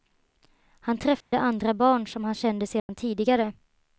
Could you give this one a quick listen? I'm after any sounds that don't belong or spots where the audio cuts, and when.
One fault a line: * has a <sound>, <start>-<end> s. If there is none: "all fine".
* has a dropout, 1.2-1.3 s
* has a dropout, 2.8-2.9 s